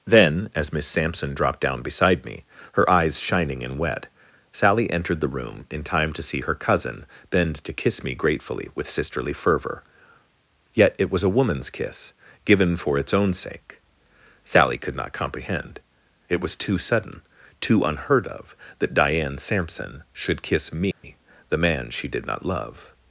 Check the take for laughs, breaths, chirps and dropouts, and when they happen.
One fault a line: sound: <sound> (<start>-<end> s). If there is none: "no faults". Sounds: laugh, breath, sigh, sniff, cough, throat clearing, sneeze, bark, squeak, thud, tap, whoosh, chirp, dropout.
sound: dropout (20.9-21.0 s)